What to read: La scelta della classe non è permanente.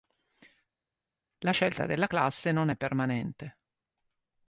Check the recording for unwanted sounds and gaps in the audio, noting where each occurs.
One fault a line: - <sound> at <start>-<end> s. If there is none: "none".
none